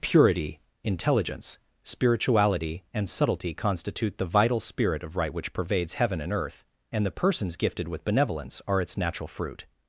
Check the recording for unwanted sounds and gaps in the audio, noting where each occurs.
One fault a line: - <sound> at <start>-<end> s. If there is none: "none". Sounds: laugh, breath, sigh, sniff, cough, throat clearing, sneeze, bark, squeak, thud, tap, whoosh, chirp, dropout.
none